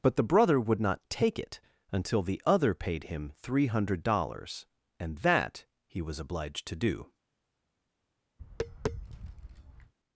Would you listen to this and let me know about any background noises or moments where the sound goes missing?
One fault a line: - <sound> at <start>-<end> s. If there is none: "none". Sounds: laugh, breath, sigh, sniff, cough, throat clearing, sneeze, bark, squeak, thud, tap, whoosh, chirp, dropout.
- tap at 8.4-9.9 s